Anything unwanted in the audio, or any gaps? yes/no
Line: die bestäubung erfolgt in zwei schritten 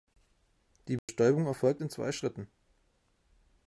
yes